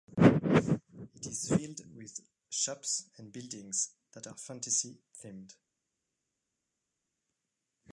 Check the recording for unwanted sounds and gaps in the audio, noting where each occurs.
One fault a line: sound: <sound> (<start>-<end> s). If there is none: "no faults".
no faults